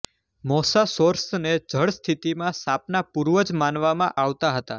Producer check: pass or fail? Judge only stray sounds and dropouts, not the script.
pass